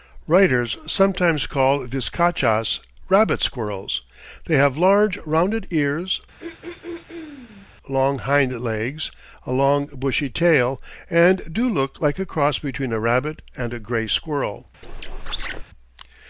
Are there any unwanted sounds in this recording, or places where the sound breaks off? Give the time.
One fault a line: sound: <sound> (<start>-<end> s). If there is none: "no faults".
sound: throat clearing (6.4-7.7 s)
sound: squeak (14.8-15.6 s)